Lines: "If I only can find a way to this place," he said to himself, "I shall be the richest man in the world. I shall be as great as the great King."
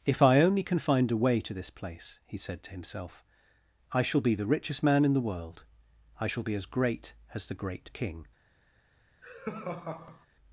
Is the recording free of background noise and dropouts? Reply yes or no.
no